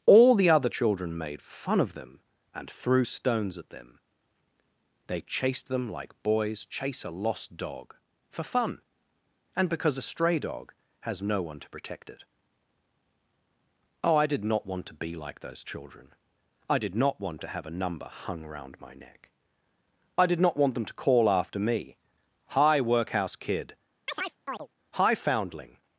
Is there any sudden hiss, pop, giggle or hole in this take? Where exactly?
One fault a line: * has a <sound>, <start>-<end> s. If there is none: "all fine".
* has a chirp, 24.1-24.7 s